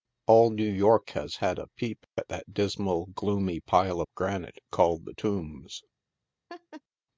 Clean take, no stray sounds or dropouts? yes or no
no